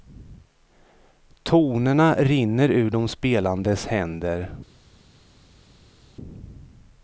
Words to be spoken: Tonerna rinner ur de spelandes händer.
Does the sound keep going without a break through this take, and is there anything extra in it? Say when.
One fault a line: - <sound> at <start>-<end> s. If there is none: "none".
none